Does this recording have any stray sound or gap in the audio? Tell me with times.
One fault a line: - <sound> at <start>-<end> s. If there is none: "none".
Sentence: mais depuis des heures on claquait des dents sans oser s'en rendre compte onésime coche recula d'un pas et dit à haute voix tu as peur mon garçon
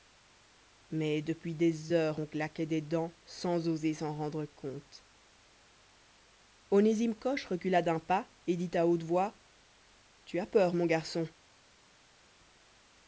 none